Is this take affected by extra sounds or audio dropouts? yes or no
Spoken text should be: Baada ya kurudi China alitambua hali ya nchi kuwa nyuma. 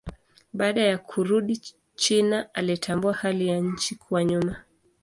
no